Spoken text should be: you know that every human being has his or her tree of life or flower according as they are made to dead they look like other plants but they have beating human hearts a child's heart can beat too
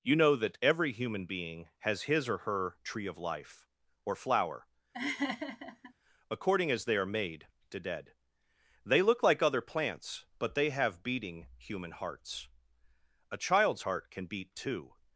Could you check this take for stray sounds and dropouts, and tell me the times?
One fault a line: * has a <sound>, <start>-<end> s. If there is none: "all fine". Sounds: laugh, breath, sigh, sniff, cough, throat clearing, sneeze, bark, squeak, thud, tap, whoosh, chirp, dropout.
* has a laugh, 4.9-5.9 s